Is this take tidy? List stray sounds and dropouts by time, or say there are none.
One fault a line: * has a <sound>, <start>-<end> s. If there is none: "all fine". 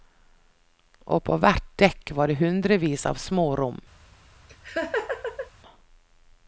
* has a laugh, 4.5-5.5 s